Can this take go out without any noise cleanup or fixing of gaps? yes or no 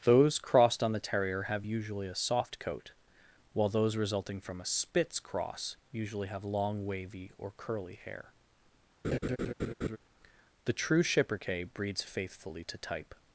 no